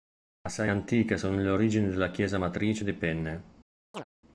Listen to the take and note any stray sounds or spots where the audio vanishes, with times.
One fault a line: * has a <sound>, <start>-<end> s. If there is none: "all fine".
* has a chirp, 3.9-4.0 s